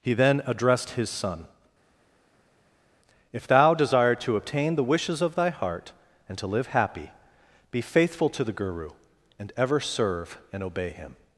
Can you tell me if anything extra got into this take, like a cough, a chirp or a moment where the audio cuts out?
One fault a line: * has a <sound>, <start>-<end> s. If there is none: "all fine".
all fine